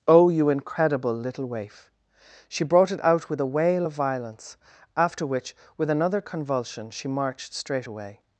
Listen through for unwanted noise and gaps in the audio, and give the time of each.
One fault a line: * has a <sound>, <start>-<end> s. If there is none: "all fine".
all fine